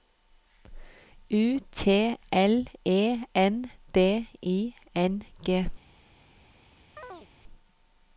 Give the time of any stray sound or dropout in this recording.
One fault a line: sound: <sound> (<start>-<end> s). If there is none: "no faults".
sound: chirp (7.0-7.3 s)